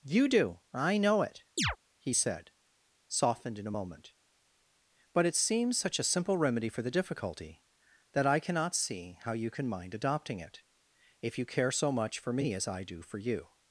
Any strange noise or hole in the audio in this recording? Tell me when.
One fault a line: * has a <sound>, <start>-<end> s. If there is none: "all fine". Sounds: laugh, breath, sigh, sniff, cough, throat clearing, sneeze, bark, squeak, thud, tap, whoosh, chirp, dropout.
* has a chirp, 1.6-1.8 s